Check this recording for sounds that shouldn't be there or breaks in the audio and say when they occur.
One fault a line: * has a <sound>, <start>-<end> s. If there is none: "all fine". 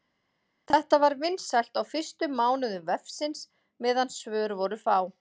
all fine